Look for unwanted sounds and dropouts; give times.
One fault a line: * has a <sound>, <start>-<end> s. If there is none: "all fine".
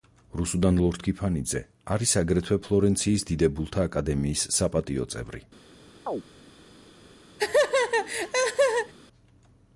* has a chirp, 6.1-6.2 s
* has a laugh, 7.4-8.9 s